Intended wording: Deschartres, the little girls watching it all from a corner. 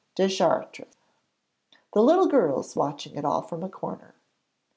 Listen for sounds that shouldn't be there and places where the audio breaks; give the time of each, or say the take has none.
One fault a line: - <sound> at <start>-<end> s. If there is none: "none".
none